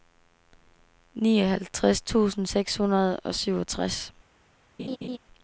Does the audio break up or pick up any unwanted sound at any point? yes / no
yes